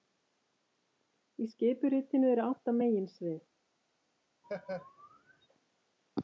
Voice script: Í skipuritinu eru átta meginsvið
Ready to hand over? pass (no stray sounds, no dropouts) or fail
fail